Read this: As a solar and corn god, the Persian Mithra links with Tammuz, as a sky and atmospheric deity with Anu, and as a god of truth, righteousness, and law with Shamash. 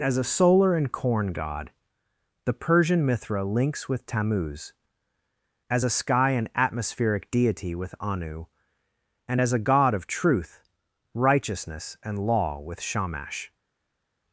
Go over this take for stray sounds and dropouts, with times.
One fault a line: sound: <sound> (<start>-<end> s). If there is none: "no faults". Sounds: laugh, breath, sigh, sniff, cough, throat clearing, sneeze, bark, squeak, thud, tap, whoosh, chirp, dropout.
no faults